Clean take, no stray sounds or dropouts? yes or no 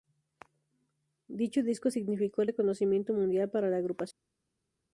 yes